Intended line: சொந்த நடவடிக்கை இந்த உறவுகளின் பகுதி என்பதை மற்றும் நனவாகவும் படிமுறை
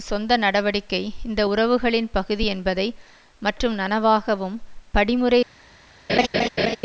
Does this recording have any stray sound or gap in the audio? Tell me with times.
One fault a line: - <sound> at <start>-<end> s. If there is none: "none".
- laugh at 6.1-6.8 s